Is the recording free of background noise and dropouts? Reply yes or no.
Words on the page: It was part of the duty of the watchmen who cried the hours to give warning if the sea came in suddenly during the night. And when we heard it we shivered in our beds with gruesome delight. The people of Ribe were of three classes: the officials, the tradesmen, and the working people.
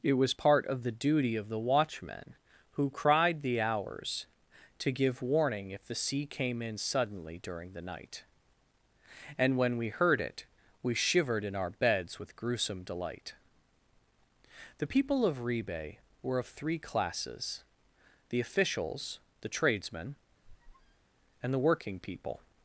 no